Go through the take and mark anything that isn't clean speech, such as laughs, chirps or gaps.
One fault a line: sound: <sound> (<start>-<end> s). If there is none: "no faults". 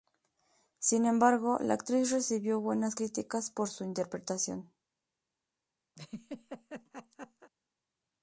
sound: laugh (6.0-7.5 s)